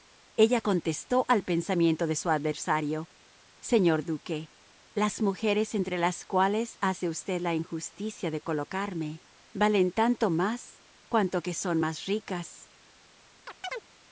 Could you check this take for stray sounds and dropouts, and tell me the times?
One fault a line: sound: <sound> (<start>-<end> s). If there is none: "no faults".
sound: chirp (13.5-13.9 s)